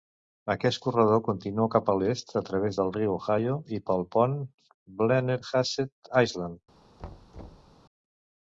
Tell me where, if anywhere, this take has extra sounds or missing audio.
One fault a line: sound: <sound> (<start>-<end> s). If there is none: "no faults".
sound: thud (7.0-7.8 s)